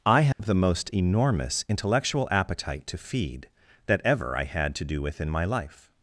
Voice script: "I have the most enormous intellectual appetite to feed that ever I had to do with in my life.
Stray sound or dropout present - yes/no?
yes